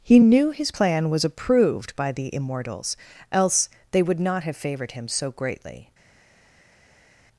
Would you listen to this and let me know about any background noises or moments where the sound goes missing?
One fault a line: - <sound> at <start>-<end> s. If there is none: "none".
none